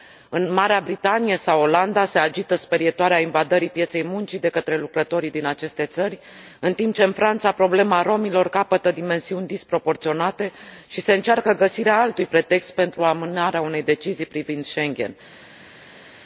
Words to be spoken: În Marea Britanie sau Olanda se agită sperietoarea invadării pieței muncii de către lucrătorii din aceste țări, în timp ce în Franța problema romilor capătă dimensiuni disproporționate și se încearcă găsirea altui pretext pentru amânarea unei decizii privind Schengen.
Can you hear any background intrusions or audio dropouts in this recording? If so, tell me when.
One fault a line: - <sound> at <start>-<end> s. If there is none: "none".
none